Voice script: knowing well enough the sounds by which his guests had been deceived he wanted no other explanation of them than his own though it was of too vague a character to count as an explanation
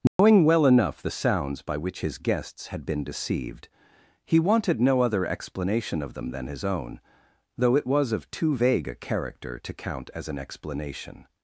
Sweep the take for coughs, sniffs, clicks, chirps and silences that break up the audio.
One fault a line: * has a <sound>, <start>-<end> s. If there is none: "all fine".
* has a dropout, 0.1-0.2 s